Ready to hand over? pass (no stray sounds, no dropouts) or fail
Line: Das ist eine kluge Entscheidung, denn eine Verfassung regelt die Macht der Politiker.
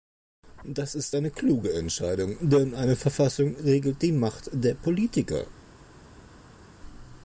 pass